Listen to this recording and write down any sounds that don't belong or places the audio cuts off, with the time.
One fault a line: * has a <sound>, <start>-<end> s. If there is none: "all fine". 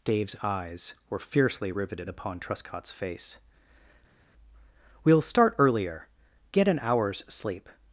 all fine